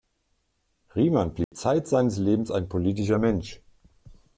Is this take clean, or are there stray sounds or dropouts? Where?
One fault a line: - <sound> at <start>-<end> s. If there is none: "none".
- dropout at 1.4-1.5 s